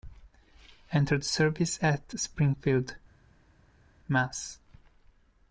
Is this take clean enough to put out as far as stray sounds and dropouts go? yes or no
yes